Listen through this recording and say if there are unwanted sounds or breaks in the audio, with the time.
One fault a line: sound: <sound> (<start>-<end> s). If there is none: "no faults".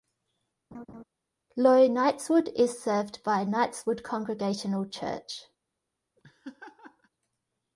sound: laugh (0.7-1.0 s)
sound: laugh (6.2-7.1 s)